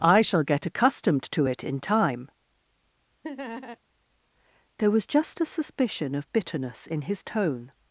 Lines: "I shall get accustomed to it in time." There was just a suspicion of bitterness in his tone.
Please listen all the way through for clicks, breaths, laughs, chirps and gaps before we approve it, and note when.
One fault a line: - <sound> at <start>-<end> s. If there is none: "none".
- laugh at 3.2-3.8 s